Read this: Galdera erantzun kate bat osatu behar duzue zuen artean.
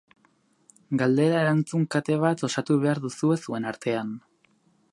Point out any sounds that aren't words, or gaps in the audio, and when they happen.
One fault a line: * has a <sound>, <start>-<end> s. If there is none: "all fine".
all fine